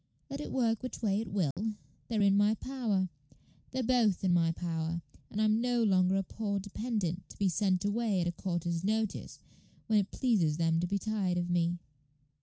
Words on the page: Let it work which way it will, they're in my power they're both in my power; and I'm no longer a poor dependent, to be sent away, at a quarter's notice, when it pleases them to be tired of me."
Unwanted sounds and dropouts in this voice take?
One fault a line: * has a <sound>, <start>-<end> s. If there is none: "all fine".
* has a dropout, 1.5-1.6 s